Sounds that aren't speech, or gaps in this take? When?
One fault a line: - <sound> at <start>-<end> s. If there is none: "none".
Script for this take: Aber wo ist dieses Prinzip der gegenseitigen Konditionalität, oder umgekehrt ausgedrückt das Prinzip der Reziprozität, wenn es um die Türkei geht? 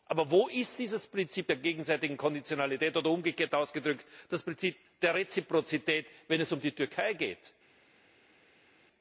none